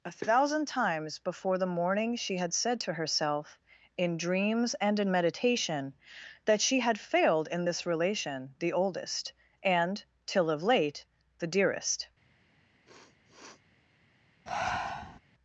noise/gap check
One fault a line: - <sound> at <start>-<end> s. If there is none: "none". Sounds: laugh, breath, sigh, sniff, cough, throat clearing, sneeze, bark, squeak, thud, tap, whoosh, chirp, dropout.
- sniff at 12.9-13.6 s
- breath at 14.5-15.2 s